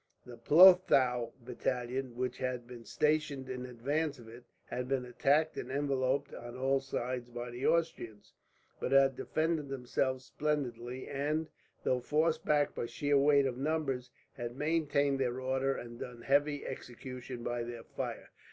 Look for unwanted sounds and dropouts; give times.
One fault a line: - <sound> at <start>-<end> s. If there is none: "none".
none